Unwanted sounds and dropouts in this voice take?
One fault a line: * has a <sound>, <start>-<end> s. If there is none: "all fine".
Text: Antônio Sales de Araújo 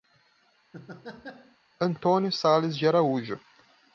* has a laugh, 0.7-1.6 s